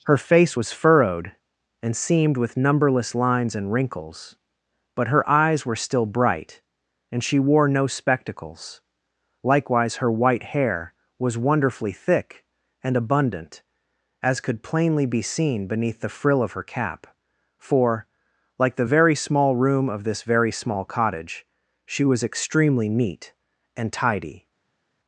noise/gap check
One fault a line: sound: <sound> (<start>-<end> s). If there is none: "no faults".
no faults